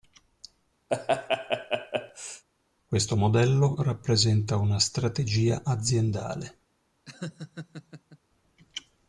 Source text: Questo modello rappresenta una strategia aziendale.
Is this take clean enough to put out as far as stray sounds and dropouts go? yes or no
no